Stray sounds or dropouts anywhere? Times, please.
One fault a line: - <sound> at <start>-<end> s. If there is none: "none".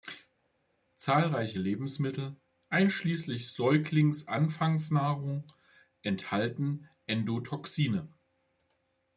none